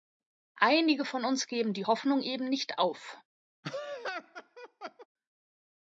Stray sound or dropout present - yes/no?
yes